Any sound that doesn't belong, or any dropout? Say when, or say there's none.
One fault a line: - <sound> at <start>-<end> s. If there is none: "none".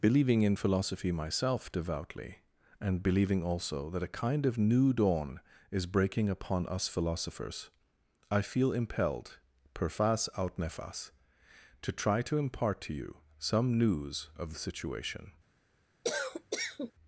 - cough at 16.0-16.9 s